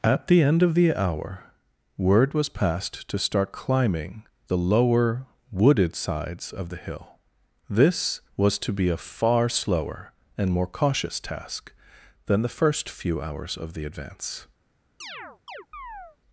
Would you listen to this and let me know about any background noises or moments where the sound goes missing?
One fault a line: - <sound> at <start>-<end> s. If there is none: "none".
- chirp at 15.0-16.2 s